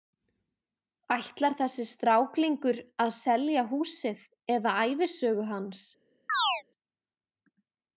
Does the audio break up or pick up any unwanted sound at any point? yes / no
yes